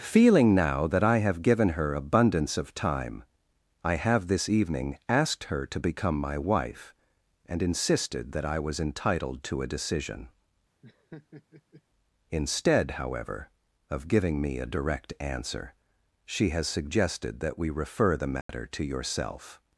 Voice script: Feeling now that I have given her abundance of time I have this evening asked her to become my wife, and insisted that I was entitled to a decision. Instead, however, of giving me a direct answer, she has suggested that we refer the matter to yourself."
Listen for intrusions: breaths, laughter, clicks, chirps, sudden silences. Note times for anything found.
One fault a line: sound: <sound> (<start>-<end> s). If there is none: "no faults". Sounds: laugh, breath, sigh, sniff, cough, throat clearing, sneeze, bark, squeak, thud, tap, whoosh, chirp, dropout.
sound: laugh (10.8-11.8 s)
sound: dropout (18.4-18.5 s)